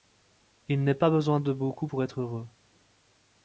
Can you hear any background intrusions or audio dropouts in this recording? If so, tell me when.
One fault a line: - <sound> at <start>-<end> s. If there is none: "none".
none